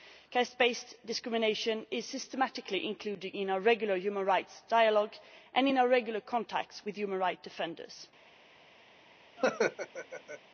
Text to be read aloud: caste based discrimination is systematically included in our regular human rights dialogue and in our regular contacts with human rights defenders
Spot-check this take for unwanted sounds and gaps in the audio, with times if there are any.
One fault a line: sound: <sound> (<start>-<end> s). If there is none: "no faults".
sound: laugh (9.4-10.4 s)